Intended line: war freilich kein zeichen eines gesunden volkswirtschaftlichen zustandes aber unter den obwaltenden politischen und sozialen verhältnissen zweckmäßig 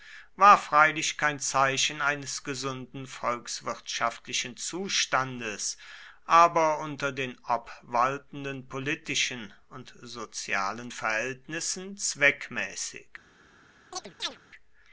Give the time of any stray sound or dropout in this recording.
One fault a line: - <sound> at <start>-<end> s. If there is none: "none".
- chirp at 13.9-14.4 s